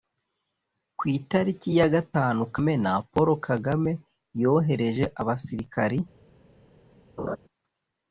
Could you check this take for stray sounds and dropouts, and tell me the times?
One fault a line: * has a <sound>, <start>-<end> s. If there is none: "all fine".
* has a laugh, 7.2-7.4 s